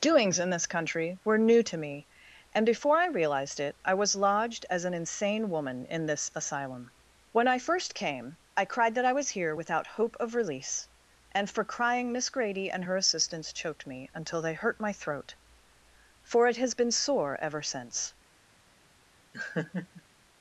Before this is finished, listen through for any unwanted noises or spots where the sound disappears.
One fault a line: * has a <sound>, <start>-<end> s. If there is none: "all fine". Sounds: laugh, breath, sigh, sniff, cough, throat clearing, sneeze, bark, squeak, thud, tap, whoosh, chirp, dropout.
* has a laugh, 19.3-20.0 s